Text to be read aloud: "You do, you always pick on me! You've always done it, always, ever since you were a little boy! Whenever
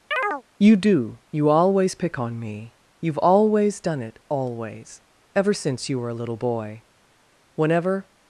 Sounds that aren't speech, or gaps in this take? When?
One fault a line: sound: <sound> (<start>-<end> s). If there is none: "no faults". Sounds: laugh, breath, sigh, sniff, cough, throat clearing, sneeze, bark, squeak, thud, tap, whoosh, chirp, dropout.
sound: chirp (0.1-0.4 s)